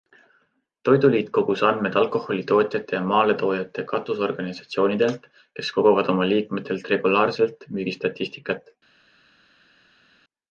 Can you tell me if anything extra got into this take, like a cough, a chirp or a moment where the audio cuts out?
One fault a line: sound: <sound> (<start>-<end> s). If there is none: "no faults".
no faults